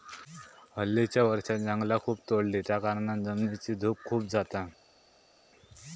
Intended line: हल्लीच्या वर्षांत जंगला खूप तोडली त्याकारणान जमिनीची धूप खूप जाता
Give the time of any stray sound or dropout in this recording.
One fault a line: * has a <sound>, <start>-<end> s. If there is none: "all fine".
all fine